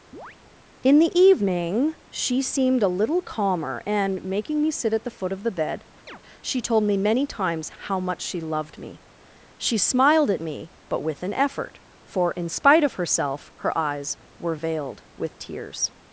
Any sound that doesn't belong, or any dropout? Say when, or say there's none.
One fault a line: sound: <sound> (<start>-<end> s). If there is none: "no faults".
sound: chirp (0.1-0.4 s)
sound: chirp (6.1-6.2 s)